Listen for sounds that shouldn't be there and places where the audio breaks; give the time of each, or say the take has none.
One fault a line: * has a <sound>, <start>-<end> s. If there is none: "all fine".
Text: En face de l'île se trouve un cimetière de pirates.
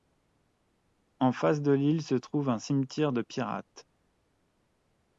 all fine